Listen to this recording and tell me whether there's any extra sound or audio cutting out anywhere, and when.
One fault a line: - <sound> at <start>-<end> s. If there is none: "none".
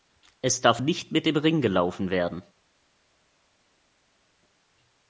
none